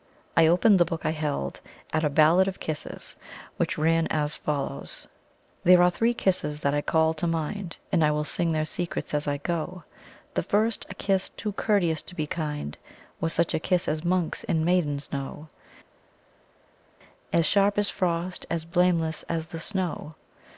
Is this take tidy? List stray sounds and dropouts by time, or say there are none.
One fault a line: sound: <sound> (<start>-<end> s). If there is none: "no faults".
no faults